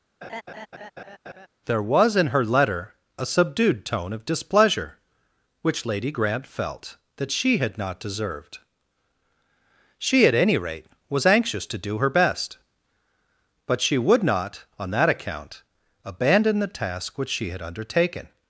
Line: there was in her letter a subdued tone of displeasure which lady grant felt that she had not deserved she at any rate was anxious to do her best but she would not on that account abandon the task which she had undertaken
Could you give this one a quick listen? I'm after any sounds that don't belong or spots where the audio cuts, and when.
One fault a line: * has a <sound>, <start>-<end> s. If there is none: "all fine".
* has a laugh, 0.2-1.5 s